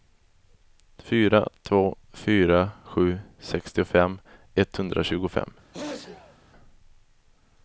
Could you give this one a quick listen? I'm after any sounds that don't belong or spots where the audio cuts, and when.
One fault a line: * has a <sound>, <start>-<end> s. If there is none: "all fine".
* has a sneeze, 5.7-6.4 s